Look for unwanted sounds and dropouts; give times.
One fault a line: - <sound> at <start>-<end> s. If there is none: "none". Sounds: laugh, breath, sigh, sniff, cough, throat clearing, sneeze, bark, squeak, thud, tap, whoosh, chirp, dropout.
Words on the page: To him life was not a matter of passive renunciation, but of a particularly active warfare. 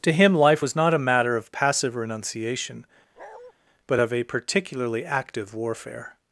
- bark at 3.2-3.5 s